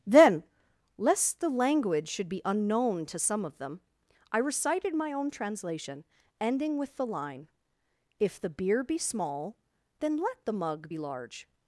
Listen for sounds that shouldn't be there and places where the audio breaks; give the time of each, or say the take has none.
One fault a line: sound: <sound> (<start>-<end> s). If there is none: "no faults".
no faults